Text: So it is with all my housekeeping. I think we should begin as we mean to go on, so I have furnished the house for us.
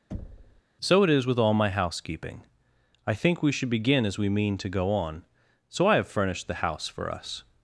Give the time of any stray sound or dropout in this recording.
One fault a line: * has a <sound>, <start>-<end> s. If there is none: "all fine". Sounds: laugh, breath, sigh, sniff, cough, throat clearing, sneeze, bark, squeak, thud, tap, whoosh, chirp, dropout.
* has a thud, 0.1-0.6 s